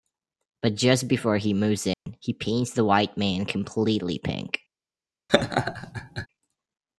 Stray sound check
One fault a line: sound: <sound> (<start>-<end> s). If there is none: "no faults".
sound: dropout (1.9-2.1 s)
sound: laugh (5.3-6.3 s)